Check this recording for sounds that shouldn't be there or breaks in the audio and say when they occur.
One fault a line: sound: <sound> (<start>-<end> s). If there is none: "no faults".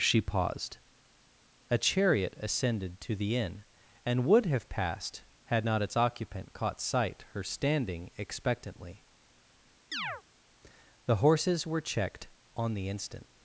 sound: chirp (9.9-10.2 s)